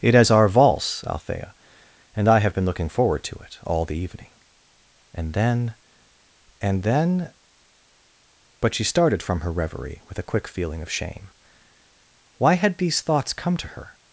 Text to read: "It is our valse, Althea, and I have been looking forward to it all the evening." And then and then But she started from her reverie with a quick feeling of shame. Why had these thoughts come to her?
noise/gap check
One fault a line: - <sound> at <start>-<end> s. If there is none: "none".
none